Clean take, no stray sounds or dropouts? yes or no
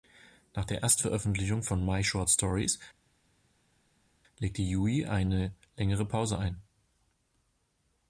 yes